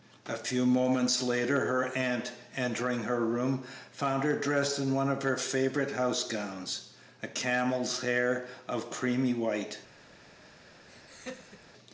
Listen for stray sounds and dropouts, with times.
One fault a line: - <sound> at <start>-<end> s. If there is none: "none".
- laugh at 10.9-11.7 s